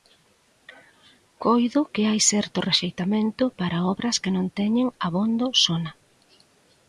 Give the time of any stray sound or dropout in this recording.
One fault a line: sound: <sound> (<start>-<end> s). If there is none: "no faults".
no faults